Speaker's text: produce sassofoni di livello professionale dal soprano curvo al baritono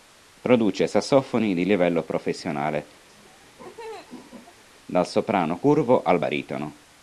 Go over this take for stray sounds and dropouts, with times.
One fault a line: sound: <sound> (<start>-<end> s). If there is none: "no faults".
sound: laugh (3.1-4.6 s)